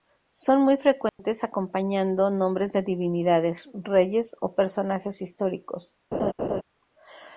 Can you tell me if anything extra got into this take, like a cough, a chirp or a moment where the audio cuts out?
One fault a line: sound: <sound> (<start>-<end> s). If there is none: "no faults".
sound: dropout (1.1-1.2 s)
sound: laugh (6.1-6.6 s)